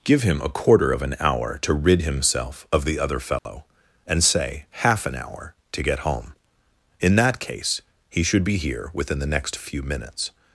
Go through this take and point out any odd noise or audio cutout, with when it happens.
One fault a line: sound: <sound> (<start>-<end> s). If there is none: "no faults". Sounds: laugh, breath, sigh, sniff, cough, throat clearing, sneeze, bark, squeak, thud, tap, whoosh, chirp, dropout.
sound: dropout (3.4-3.5 s)